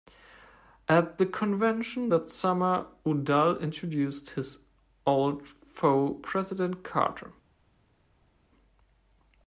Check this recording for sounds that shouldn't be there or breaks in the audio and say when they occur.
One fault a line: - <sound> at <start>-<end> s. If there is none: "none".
none